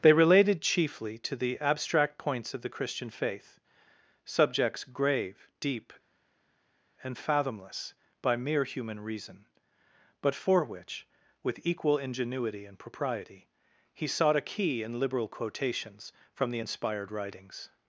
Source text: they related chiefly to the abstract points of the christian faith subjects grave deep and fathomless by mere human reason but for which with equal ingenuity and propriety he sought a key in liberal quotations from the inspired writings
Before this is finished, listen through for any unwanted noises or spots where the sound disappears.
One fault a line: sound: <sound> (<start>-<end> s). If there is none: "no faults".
no faults